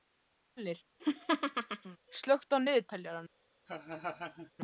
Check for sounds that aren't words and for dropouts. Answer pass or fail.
fail